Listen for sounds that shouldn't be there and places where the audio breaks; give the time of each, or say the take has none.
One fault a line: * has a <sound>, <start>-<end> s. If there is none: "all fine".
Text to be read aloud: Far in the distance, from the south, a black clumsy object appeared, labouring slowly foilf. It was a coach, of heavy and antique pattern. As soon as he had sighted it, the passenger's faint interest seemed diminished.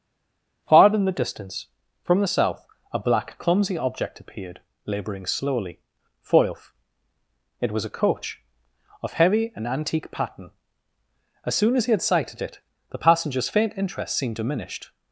all fine